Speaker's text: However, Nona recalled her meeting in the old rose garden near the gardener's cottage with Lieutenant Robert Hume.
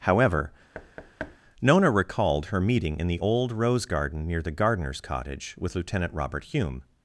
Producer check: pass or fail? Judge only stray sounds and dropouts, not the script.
fail